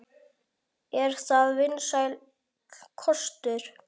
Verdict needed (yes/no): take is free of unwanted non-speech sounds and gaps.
yes